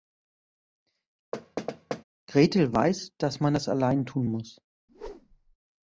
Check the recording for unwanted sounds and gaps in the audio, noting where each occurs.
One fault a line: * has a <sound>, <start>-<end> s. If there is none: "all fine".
* has a thud, 1.3-2.0 s
* has a whoosh, 4.9-5.6 s